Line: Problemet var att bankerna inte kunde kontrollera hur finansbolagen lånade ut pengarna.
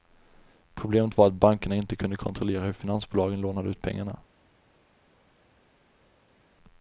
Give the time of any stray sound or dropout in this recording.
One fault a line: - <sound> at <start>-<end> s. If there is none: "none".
none